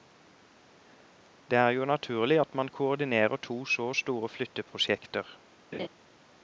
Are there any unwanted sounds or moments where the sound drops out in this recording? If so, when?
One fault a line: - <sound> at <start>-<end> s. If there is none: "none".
- laugh at 5.7-5.9 s